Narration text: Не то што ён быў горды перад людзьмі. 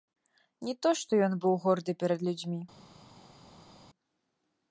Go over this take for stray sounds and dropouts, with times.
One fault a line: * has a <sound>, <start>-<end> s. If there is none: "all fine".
all fine